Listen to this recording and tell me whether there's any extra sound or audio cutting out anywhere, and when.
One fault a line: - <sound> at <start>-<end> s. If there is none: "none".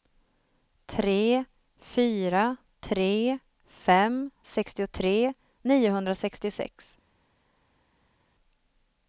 none